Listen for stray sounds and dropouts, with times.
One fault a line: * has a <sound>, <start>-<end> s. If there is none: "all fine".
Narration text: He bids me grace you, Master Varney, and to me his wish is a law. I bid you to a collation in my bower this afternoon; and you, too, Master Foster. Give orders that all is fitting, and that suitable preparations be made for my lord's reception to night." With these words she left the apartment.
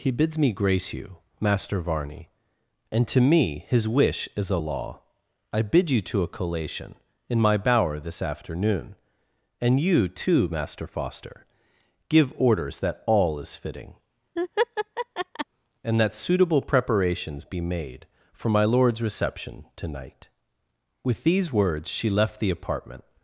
* has a laugh, 14.4-15.5 s